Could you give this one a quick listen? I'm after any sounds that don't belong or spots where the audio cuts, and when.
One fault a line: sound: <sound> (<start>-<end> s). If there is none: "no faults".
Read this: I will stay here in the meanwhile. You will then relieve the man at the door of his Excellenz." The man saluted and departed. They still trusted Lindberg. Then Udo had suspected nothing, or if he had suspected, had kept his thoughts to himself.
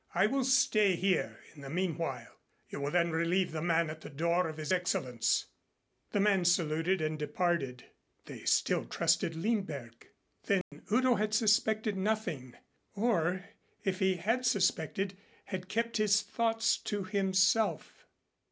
sound: dropout (10.6-10.7 s)